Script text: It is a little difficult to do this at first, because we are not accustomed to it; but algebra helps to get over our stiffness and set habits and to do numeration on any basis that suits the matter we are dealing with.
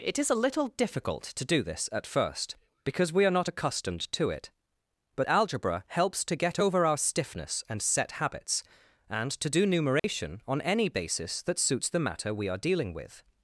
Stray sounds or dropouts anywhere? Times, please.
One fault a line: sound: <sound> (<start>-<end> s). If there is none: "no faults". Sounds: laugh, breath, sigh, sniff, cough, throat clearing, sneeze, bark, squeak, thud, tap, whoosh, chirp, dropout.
sound: dropout (10.0-10.0 s)